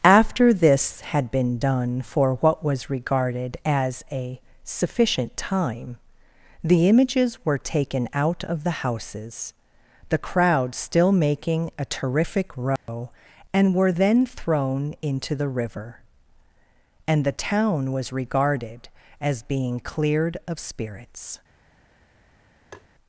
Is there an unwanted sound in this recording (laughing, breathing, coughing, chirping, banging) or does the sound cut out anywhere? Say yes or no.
yes